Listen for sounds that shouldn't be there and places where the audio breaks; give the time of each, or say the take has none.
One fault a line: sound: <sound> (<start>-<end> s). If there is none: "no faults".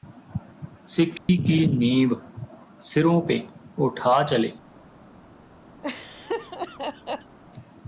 sound: dropout (1.2-1.3 s)
sound: laugh (5.8-7.4 s)